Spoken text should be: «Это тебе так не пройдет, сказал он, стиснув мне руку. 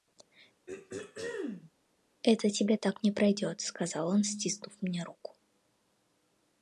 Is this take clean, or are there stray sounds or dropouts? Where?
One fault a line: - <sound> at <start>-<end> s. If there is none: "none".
- throat clearing at 0.7-1.7 s